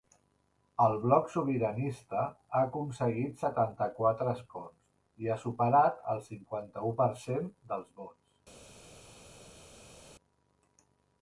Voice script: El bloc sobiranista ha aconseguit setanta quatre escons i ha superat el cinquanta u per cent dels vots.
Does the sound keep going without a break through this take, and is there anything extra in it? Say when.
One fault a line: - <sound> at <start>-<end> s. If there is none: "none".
none